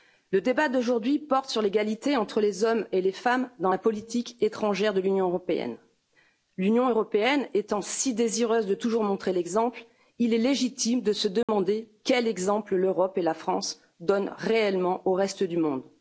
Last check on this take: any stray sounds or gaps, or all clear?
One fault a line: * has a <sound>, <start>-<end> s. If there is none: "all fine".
* has a dropout, 11.4-11.5 s